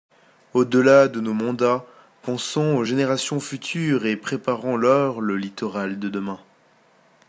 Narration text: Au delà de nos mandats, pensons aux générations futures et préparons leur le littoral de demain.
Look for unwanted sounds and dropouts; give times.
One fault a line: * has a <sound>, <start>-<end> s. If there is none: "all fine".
all fine